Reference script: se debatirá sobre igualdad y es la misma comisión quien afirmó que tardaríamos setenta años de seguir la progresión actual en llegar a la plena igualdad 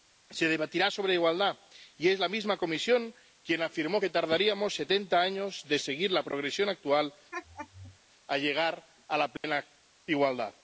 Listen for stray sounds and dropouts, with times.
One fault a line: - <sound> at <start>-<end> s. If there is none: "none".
- laugh at 7.3-8.0 s
- dropout at 9.4-9.4 s